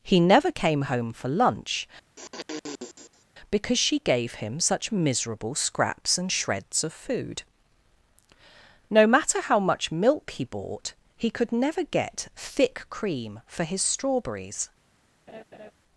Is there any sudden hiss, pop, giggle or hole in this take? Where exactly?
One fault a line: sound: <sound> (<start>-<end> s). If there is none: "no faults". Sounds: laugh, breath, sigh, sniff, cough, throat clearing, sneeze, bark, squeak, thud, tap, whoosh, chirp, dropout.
sound: sniff (2.2-3.3 s)
sound: laugh (15.3-15.7 s)